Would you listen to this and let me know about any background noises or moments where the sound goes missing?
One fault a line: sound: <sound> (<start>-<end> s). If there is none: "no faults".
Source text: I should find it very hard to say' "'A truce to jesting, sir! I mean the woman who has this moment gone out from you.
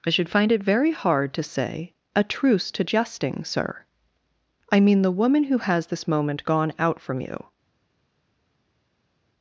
no faults